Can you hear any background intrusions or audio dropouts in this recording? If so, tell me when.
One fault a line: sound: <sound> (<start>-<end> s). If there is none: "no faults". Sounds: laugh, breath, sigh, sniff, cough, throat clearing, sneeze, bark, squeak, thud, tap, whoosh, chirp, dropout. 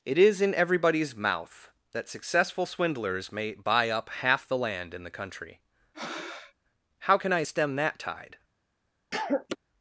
sound: breath (5.9-6.5 s)
sound: cough (9.1-9.6 s)